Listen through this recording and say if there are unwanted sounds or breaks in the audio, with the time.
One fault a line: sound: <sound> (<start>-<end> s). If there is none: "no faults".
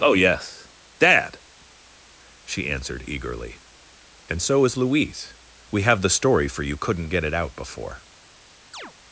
sound: chirp (8.7-8.9 s)